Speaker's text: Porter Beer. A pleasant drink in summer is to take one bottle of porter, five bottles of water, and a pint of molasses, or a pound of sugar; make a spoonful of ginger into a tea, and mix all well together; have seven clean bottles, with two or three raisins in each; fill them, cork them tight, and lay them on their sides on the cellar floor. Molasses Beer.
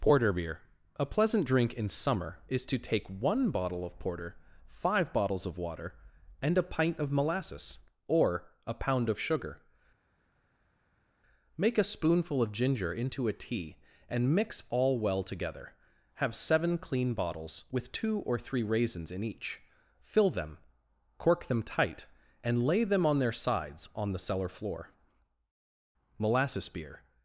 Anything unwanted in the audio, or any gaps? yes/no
no